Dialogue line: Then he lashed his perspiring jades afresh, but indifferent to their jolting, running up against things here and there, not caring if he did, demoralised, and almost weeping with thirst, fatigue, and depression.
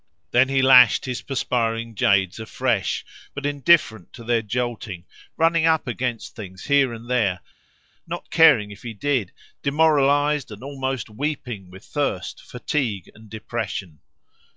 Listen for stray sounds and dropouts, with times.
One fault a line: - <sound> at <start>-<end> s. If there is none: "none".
none